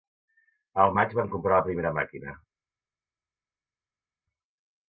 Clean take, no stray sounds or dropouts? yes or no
yes